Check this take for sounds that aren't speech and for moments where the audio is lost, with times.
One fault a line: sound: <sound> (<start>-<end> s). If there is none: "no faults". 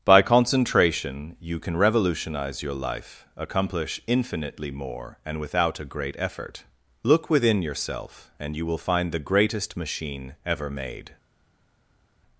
no faults